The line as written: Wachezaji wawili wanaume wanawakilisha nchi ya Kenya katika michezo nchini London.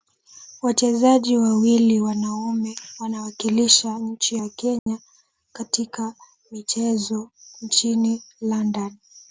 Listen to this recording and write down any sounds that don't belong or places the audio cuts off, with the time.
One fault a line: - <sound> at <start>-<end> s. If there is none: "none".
- dropout at 4.8-4.9 s